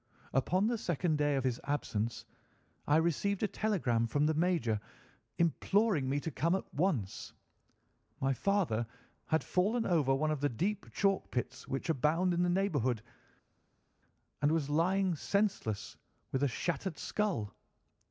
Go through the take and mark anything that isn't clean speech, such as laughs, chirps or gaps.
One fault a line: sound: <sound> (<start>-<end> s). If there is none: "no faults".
no faults